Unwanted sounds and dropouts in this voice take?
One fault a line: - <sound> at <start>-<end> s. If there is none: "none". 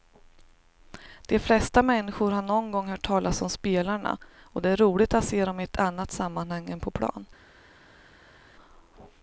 none